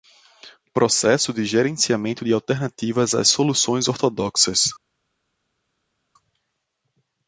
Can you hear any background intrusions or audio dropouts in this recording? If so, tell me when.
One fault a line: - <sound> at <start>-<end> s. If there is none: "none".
none